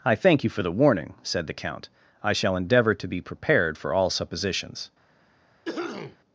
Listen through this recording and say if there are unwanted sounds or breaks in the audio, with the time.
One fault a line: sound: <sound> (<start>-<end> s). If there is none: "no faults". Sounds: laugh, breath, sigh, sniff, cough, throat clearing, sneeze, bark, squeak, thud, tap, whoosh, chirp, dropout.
sound: cough (5.6-6.2 s)